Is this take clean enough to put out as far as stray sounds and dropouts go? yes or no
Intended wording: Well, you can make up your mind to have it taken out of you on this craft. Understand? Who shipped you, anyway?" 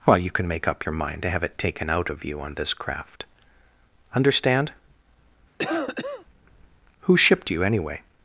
no